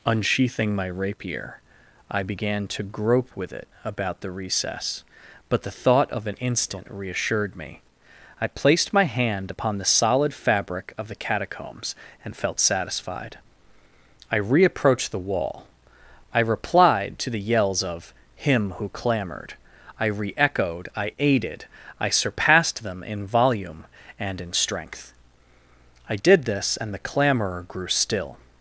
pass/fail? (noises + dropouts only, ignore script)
pass